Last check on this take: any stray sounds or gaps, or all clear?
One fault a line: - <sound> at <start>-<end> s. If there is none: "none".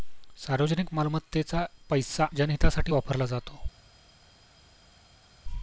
none